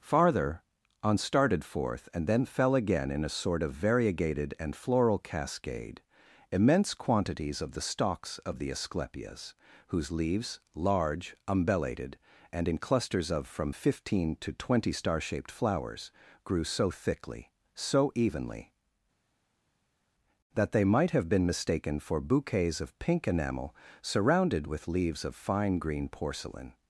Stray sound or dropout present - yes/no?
no